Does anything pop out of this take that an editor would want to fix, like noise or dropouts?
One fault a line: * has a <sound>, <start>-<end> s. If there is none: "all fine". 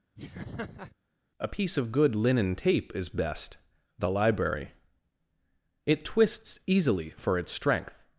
* has a laugh, 0.2-1.0 s